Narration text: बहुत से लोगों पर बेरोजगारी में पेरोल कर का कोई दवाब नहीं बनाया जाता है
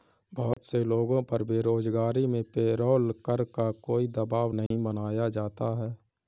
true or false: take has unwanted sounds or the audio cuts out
true